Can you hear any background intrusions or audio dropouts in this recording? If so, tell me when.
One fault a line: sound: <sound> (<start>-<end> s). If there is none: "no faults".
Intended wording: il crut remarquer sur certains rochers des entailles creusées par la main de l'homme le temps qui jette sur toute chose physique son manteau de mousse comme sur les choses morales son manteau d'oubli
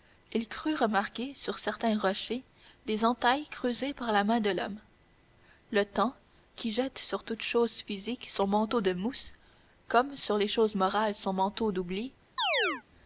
sound: chirp (12.4-12.8 s)